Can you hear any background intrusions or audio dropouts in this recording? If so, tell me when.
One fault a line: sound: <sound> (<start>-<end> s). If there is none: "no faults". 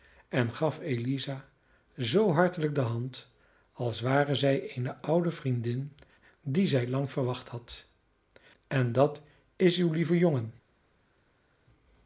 no faults